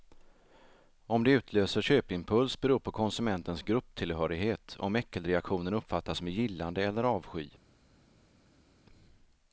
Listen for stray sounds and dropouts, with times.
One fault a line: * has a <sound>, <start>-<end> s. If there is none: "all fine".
all fine